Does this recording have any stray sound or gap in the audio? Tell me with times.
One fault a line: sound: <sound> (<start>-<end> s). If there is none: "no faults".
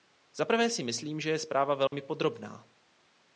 sound: dropout (1.9-1.9 s)